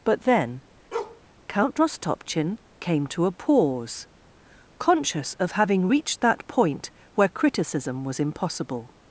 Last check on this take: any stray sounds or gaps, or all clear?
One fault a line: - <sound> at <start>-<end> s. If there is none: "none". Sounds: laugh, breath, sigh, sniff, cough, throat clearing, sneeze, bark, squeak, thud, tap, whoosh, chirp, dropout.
- bark at 0.9-1.2 s